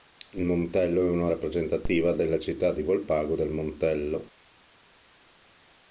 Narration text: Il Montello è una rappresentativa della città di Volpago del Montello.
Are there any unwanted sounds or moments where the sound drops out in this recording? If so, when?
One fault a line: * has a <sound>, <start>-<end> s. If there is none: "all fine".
all fine